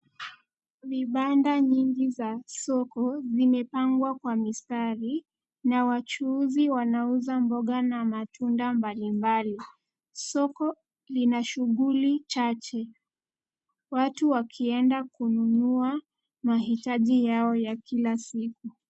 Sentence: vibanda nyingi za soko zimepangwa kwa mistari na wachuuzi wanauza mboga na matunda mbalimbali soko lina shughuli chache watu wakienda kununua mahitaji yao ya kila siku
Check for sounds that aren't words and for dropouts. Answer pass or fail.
pass